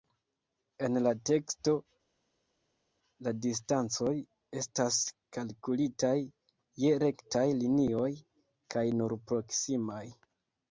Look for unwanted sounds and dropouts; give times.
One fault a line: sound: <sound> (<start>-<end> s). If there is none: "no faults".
no faults